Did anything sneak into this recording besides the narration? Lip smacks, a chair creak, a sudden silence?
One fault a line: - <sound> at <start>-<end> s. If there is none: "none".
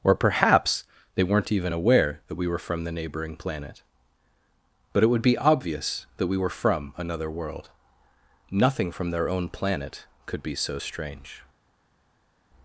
none